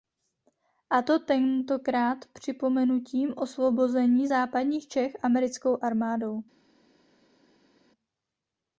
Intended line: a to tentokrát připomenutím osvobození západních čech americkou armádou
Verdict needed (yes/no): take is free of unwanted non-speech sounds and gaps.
yes